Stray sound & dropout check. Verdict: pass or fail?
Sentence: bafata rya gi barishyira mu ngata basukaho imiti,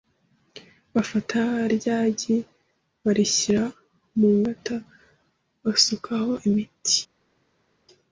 pass